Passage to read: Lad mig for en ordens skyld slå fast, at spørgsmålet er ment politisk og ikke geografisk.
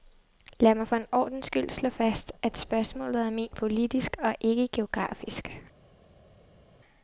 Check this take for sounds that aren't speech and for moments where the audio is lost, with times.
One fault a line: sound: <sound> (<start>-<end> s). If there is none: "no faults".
no faults